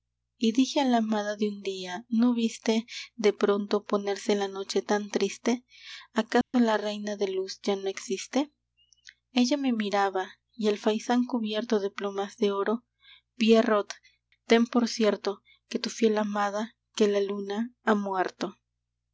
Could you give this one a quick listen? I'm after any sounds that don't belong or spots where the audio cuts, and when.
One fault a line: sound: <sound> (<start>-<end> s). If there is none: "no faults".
sound: dropout (6.4-6.5 s)